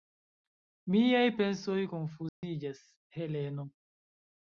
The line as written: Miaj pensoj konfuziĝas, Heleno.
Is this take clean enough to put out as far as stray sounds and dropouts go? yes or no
no